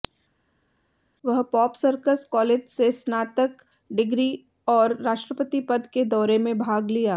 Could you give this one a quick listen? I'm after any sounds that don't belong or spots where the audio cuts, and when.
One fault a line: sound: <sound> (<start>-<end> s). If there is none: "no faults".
no faults